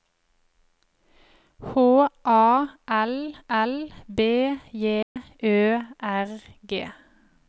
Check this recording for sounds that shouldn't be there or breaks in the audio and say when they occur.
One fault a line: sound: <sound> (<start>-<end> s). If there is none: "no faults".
sound: dropout (5.0-5.2 s)